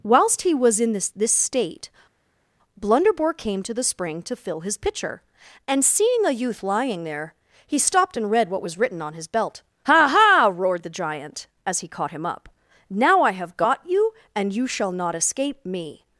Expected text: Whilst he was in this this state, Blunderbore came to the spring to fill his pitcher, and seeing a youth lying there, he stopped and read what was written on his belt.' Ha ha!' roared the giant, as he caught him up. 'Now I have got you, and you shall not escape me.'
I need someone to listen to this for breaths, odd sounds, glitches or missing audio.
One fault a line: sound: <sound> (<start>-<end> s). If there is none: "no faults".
no faults